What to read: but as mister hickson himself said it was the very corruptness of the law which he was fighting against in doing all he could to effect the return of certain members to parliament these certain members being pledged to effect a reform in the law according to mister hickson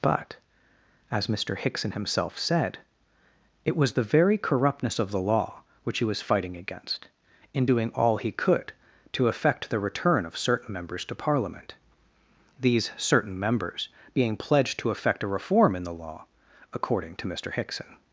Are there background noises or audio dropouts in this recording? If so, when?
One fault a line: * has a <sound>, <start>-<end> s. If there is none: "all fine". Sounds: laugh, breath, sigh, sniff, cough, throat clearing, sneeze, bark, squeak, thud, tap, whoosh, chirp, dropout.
all fine